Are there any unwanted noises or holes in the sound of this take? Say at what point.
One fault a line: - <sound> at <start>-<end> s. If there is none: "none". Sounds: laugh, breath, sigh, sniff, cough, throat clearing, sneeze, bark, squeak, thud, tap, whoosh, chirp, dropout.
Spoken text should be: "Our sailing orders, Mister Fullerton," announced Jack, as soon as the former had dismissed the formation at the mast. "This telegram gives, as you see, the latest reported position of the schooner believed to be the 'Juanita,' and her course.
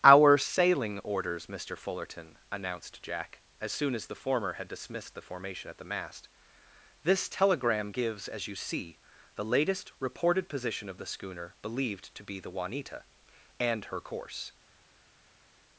none